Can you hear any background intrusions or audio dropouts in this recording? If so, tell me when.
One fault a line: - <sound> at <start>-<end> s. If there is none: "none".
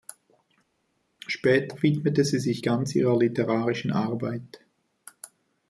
none